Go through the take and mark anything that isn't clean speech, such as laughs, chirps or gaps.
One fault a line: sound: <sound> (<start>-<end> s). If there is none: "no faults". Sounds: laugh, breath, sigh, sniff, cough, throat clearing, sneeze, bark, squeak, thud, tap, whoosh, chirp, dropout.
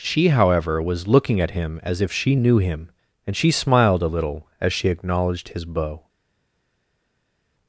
no faults